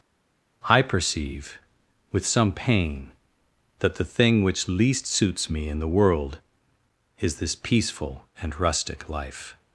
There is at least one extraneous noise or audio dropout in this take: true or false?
false